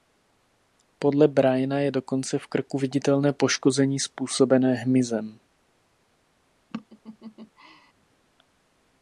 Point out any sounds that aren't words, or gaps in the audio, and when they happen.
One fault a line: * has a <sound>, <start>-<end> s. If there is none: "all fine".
* has a laugh, 6.7-7.9 s